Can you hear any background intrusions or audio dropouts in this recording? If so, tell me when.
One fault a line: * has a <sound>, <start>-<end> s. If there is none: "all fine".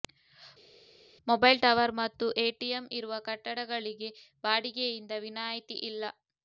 all fine